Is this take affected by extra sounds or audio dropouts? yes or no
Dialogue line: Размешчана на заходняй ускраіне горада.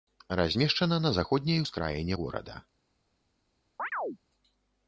yes